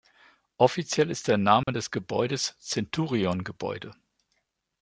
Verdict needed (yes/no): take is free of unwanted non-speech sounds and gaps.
no